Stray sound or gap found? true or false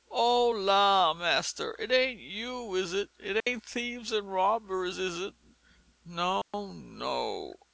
true